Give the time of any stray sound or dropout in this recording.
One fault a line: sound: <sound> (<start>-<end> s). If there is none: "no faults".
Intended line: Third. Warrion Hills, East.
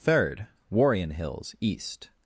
no faults